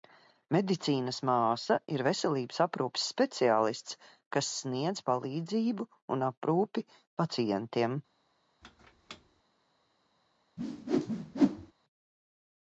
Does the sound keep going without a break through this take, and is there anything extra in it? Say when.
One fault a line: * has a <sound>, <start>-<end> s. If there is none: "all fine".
* has a squeak, 8.6-9.4 s
* has a whoosh, 10.6-11.7 s